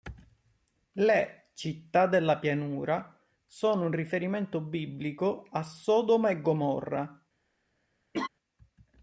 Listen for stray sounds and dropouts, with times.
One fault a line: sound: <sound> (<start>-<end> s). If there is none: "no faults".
sound: laugh (8.1-8.3 s)